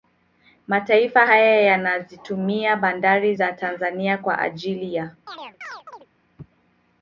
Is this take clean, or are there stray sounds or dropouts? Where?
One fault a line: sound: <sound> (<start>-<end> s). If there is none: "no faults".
sound: chirp (5.3-6.1 s)